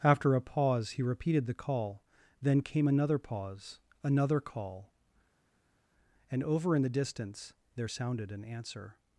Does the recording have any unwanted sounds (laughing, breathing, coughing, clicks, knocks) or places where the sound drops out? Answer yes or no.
no